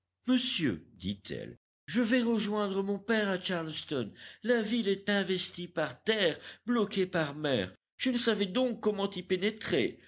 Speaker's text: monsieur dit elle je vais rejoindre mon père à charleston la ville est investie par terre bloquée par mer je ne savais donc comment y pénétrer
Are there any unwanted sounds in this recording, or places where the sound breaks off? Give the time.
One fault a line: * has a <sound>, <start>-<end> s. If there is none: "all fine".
all fine